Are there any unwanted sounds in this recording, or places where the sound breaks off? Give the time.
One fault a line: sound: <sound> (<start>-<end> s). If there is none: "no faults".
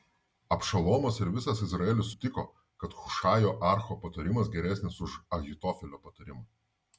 no faults